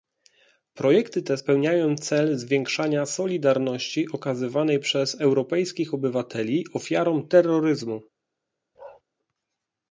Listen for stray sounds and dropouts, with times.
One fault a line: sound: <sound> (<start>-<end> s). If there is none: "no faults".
sound: bark (8.7-9.0 s)